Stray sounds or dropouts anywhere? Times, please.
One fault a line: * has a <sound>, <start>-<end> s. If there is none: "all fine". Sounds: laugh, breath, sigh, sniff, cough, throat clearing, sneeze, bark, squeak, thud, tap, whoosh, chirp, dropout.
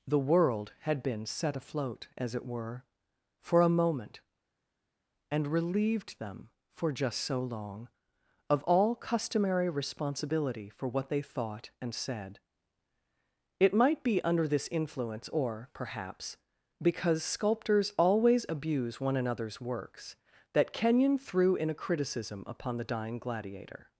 all fine